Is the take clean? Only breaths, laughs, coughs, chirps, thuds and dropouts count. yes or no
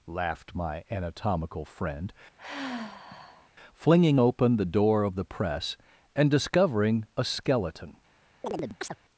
no